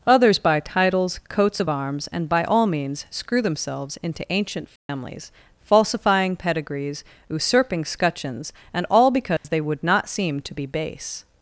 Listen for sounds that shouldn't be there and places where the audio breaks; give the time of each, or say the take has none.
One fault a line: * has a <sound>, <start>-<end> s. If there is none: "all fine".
* has a dropout, 4.8-4.9 s
* has a dropout, 9.4-9.4 s